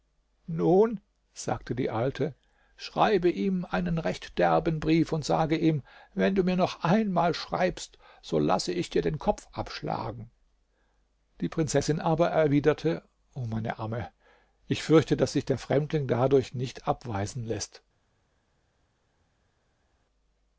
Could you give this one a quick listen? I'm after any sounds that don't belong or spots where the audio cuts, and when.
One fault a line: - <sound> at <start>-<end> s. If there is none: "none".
none